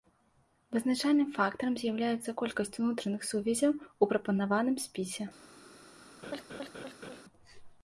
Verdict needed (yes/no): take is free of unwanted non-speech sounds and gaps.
no